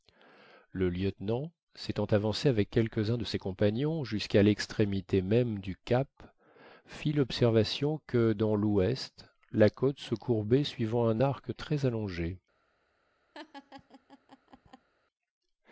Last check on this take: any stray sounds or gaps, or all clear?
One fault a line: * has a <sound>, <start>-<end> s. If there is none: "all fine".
* has a laugh, 13.3-14.9 s